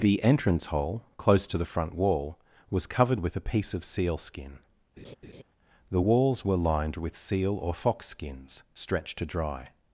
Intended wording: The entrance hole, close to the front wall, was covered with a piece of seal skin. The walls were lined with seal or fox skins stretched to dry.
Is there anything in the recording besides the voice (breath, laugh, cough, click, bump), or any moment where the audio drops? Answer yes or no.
yes